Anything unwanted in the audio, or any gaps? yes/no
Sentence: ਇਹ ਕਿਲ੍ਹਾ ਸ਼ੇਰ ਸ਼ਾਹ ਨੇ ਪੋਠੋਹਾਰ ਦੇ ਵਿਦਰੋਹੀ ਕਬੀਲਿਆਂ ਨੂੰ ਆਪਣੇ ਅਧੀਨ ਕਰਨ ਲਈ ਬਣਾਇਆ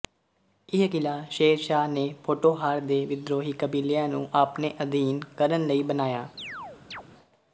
yes